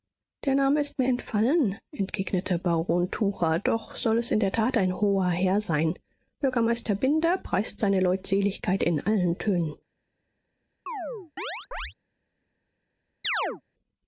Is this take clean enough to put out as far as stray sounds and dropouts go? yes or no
no